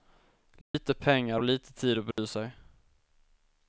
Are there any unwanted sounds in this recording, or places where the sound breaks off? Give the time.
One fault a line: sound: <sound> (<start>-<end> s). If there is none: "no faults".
sound: dropout (0.6-0.7 s)
sound: dropout (2.1-2.2 s)